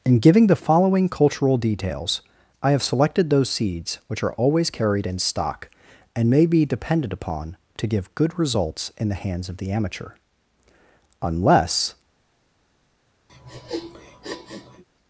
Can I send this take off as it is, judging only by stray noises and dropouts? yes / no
no